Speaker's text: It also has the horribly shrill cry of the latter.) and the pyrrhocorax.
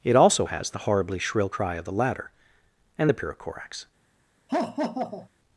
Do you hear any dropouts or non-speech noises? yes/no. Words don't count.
yes